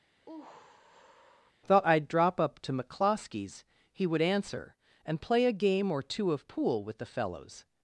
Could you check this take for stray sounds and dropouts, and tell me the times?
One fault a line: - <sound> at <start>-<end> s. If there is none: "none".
- sigh at 0.2-1.5 s